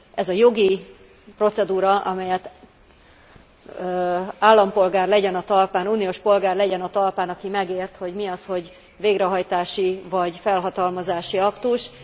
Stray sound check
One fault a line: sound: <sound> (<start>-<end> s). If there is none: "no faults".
no faults